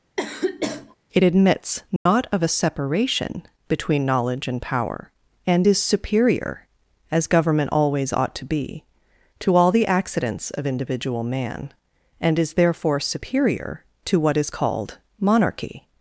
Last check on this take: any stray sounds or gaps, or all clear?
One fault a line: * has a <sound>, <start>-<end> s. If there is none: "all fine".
* has a sniff, 0.2-1.0 s
* has a dropout, 2.0-2.1 s